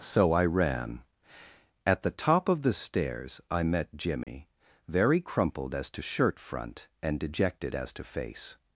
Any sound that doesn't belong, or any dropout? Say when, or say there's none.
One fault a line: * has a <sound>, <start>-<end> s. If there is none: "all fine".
* has a dropout, 4.2-4.3 s